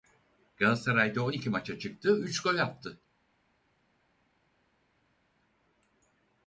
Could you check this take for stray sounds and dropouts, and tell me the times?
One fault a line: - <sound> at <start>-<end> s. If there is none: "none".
none